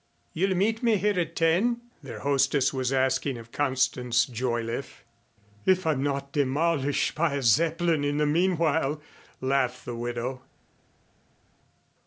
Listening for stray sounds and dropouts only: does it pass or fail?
pass